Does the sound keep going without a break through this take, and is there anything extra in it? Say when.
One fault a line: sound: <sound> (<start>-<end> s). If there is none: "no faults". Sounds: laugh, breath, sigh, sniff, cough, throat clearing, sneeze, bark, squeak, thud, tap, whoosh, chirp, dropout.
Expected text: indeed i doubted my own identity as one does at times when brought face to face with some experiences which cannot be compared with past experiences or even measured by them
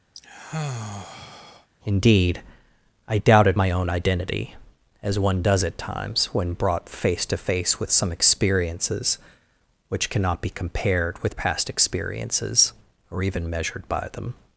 sound: sigh (0.1-1.7 s)